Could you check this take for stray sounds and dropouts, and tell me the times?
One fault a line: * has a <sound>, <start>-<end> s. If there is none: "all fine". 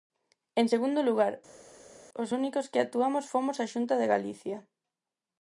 all fine